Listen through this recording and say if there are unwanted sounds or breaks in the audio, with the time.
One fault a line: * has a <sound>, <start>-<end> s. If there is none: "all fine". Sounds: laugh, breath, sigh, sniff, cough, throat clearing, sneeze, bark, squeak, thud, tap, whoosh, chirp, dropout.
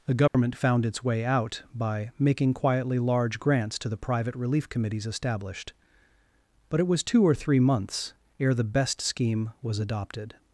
* has a dropout, 0.3-0.3 s